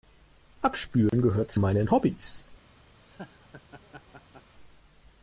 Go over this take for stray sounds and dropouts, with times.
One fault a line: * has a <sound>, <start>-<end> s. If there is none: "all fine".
* has a dropout, 1.1-1.1 s
* has a laugh, 3.0-4.5 s